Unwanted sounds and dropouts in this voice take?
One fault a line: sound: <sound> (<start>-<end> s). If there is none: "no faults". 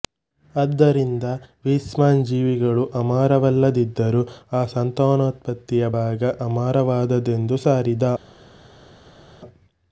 no faults